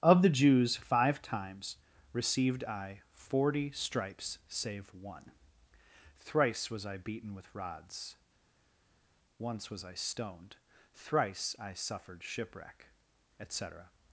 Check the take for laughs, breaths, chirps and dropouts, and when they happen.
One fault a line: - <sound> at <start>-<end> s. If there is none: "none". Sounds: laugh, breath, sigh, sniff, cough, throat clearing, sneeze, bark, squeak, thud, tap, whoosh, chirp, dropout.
none